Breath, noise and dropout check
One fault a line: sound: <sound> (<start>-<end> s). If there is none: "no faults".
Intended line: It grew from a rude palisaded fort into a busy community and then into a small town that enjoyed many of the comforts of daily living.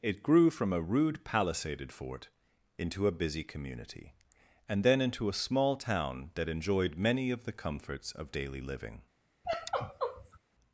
sound: sigh (9.4-10.4 s)